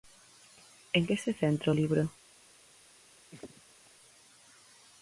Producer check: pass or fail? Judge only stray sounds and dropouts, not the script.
fail